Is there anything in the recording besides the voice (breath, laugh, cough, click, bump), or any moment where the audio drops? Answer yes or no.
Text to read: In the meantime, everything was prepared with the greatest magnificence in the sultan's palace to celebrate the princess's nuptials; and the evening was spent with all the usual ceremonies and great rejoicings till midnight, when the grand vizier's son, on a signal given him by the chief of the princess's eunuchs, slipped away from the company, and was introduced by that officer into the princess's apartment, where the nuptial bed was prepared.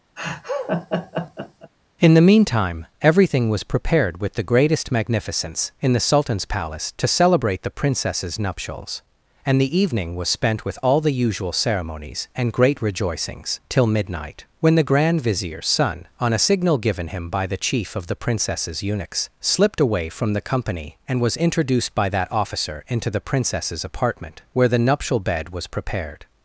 yes